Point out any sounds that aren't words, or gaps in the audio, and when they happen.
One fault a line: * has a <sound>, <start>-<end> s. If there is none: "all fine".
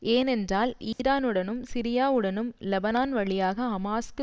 * has a dropout, 0.9-1.0 s